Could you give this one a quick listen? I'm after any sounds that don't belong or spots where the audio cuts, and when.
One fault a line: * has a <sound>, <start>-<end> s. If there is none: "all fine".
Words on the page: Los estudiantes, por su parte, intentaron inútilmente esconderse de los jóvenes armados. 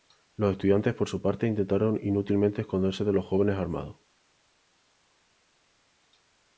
all fine